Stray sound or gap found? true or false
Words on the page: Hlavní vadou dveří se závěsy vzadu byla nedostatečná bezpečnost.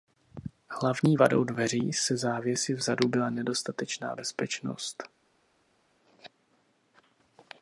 false